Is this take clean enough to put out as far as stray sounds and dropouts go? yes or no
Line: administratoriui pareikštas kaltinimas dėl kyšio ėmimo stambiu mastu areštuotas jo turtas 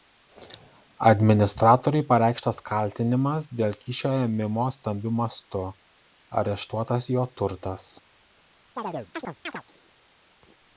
no